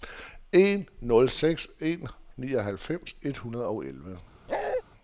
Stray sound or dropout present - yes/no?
yes